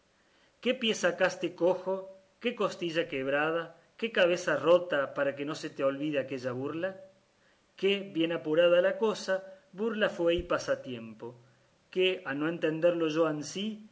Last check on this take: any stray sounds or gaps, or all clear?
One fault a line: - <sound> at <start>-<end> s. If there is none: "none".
none